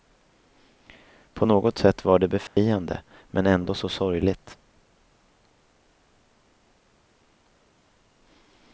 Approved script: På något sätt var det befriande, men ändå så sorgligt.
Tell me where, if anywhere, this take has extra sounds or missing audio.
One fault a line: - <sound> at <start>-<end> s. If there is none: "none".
- dropout at 2.5-2.6 s